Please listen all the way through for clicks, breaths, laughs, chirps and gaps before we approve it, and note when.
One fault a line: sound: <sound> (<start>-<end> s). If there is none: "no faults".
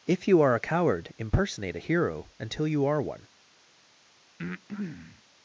sound: breath (4.4-5.2 s)